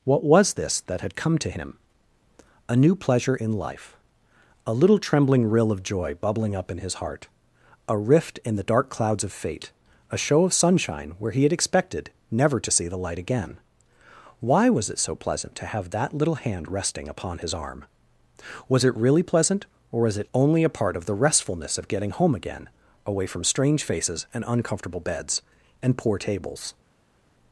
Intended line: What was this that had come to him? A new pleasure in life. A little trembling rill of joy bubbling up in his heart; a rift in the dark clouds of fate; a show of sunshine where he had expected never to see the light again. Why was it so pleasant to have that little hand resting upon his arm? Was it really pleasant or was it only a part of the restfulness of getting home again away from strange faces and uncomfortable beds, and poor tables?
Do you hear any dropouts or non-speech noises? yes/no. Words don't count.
no